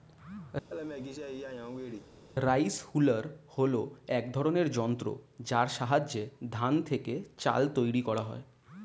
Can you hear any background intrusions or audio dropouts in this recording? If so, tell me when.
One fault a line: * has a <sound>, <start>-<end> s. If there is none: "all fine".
* has a laugh, 0.7-2.1 s